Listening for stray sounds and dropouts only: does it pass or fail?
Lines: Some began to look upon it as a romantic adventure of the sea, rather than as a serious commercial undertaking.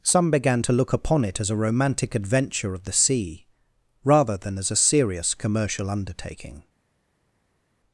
pass